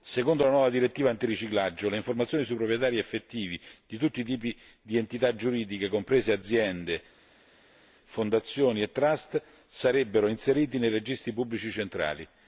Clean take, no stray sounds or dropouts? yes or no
yes